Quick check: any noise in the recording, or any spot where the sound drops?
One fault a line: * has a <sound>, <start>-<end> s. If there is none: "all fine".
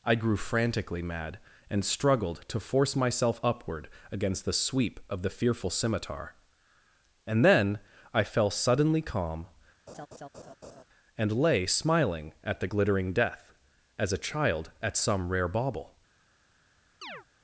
* has a laugh, 9.9-10.8 s
* has a chirp, 17.0-17.3 s